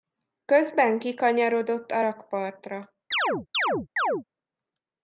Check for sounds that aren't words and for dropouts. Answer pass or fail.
fail